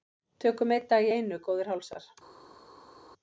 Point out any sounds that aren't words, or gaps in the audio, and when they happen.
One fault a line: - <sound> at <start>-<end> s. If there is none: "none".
none